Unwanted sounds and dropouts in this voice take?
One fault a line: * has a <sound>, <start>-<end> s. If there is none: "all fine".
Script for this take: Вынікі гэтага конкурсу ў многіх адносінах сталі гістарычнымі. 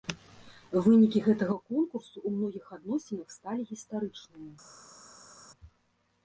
all fine